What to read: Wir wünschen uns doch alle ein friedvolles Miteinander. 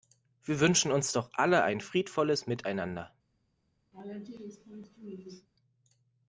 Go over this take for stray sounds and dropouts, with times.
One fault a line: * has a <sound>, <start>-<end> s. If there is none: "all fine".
* has a laugh, 3.9-5.5 s